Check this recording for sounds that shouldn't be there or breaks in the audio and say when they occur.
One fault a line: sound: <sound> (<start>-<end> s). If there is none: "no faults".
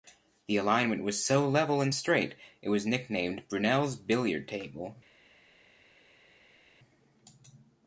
no faults